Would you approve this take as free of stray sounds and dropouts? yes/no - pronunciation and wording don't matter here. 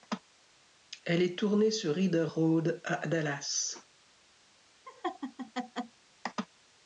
no